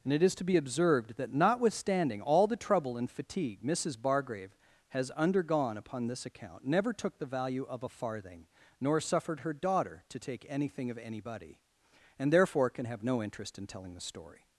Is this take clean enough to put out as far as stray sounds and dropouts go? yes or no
yes